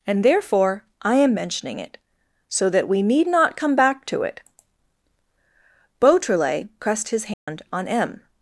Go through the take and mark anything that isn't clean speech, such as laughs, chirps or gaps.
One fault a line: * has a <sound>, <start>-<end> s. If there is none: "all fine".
* has a dropout, 7.3-7.5 s